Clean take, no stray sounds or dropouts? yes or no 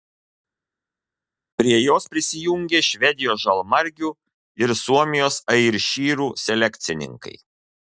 yes